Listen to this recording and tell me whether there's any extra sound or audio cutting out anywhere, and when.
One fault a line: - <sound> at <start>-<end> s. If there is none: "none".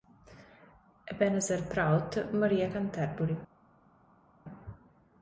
none